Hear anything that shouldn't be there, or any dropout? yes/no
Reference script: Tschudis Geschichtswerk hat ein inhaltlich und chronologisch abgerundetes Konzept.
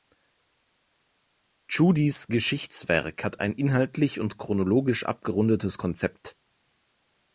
no